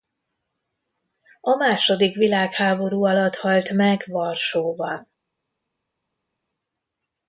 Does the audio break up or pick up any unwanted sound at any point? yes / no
no